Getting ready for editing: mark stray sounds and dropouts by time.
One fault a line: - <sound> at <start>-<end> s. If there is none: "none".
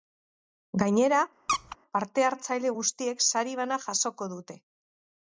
- squeak at 1.5-1.8 s